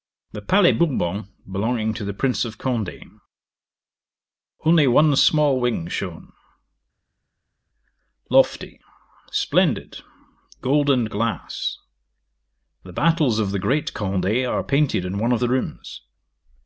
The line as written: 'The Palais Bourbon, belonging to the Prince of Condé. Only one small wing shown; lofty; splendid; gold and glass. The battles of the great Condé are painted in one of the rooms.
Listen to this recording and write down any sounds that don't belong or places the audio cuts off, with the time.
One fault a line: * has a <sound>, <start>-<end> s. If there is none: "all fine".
all fine